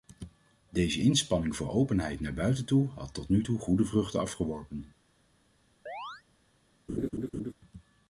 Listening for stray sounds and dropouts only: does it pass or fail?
fail